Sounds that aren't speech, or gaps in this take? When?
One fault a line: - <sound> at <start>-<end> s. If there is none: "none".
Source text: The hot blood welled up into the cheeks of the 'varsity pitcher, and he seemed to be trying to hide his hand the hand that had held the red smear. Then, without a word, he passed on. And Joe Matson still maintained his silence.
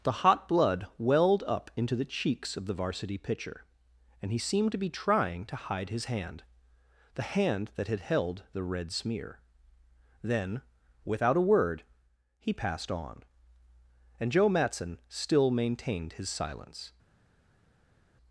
none